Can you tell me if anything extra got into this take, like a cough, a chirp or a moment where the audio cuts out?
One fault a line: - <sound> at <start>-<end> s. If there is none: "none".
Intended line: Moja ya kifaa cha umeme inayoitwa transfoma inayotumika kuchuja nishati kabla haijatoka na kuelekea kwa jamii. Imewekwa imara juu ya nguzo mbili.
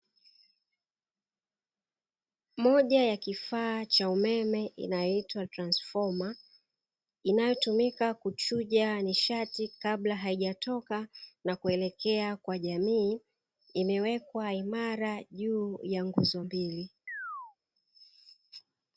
- chirp at 17.1-17.6 s